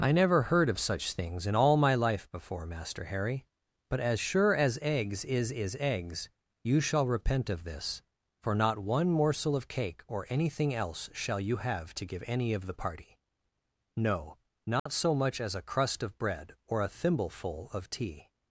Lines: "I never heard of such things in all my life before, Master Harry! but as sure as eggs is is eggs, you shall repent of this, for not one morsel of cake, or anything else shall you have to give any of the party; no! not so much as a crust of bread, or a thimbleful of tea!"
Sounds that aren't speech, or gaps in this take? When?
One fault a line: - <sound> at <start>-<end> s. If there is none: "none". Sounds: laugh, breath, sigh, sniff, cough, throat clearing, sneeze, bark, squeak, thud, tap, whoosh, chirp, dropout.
- dropout at 14.8-14.9 s